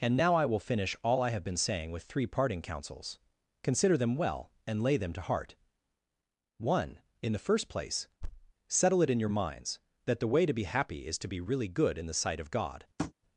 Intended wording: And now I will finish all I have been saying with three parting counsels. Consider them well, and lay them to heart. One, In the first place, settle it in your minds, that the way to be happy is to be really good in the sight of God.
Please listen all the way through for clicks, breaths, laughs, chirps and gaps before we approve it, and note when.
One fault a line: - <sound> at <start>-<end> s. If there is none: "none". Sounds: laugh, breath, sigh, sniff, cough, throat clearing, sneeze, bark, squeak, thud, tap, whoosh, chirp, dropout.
- thud at 8.2-8.5 s
- tap at 13.0-13.1 s